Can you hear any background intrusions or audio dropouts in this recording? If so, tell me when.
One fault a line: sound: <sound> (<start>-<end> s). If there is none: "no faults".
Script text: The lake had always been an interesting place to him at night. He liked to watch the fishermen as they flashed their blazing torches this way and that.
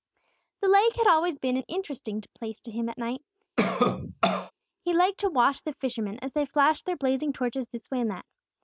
sound: cough (3.6-4.5 s)